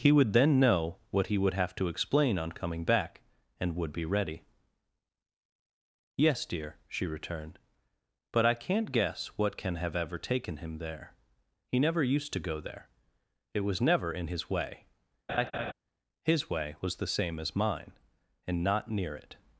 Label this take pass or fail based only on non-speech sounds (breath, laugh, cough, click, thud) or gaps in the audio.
fail